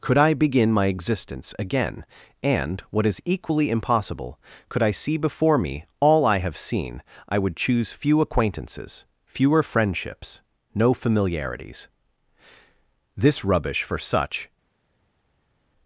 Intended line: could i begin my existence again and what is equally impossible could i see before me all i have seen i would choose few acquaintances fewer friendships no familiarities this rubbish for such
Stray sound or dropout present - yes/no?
no